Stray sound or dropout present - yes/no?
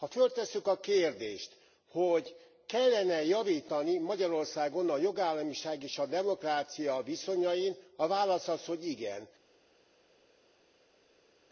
no